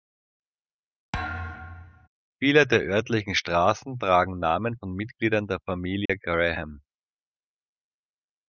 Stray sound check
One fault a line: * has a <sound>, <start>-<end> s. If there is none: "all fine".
* has a thud, 1.1-2.1 s
* has a dropout, 6.1-6.1 s